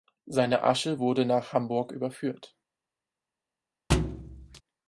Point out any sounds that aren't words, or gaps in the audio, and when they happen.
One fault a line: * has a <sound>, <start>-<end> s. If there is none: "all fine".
* has a thud, 3.9-4.6 s